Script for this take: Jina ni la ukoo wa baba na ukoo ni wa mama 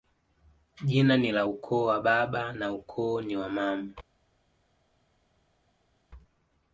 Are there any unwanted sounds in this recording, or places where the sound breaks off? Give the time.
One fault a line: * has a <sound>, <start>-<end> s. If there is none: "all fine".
all fine